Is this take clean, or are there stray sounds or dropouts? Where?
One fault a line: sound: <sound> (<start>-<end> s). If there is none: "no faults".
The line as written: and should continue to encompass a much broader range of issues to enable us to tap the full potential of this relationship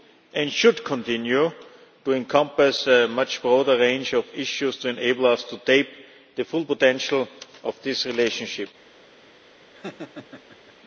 sound: laugh (9.7-10.7 s)